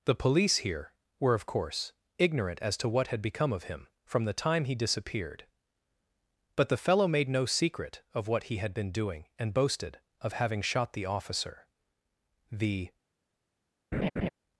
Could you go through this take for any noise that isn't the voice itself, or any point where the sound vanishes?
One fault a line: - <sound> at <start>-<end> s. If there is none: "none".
- laugh at 13.9-14.3 s